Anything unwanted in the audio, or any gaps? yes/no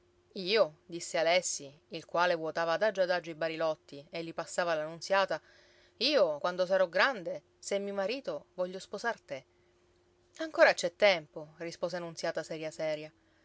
no